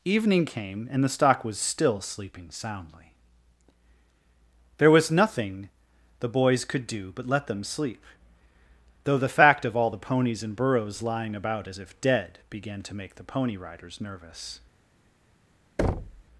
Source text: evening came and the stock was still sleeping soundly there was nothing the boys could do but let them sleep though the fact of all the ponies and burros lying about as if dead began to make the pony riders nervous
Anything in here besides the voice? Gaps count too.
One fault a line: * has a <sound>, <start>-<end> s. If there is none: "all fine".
* has a thud, 15.8-16.2 s